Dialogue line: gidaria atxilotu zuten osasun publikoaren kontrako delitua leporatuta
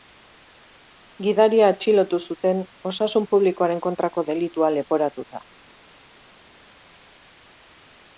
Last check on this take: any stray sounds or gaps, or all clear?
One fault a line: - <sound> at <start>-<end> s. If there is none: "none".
none